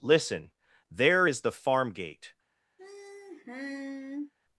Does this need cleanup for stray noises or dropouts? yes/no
yes